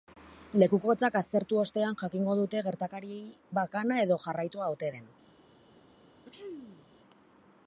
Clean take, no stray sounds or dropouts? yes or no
no